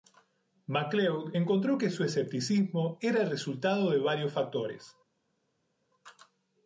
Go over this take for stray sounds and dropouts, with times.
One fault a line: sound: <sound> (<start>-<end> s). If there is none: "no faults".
no faults